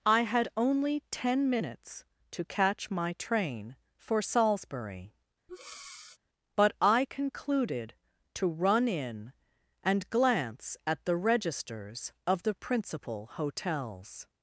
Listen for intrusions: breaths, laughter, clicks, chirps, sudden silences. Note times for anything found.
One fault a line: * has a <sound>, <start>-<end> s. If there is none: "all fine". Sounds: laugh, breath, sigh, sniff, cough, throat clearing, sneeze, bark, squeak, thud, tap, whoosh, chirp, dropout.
* has a breath, 5.5-6.2 s